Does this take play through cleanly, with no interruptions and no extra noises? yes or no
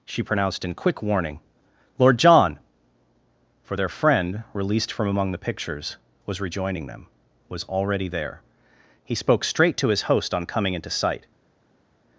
yes